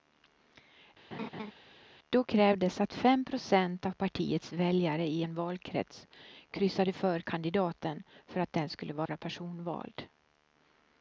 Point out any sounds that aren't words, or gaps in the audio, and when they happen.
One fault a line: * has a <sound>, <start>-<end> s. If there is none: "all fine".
* has a laugh, 1.1-1.5 s
* has a dropout, 9.1-9.1 s